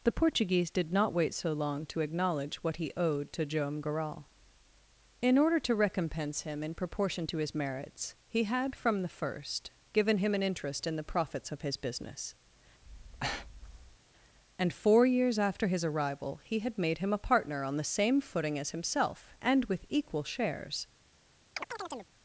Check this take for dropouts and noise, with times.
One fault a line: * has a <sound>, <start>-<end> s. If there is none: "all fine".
* has a breath, 12.8-14.0 s
* has a chirp, 21.6-22.1 s